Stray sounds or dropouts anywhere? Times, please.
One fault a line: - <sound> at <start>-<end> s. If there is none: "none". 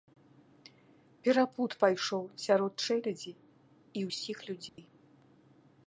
- dropout at 4.7-4.8 s